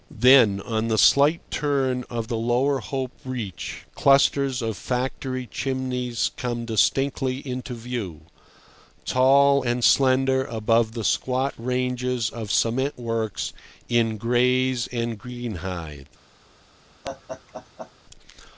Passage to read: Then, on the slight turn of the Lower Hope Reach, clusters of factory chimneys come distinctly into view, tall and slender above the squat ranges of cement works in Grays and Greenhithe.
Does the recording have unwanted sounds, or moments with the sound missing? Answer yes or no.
yes